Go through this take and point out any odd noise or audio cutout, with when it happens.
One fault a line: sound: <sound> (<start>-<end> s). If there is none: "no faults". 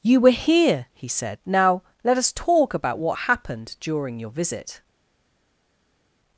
no faults